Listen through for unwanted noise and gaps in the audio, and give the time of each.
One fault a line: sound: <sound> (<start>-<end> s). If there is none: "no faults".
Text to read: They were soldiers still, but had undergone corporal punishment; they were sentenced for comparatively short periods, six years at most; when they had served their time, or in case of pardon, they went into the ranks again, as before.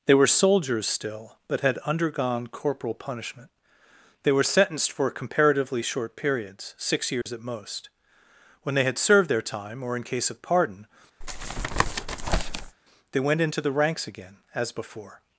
sound: dropout (7.2-7.3 s)
sound: tap (11.2-12.8 s)